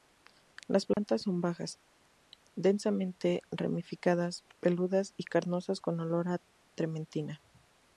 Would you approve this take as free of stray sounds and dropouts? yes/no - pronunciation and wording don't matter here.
no